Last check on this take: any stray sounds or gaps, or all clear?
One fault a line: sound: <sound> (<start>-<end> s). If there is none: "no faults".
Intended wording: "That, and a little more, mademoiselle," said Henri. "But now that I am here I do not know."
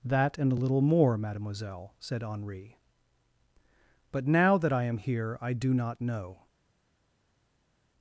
no faults